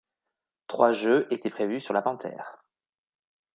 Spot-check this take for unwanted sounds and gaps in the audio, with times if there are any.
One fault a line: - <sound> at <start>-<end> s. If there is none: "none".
none